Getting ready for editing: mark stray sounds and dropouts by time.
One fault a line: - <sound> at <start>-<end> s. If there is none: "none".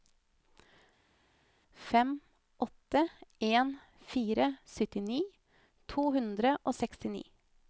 none